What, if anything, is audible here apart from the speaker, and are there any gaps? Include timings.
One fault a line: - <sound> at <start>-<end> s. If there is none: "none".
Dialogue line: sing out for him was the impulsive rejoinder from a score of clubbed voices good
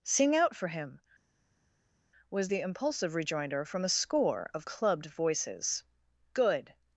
none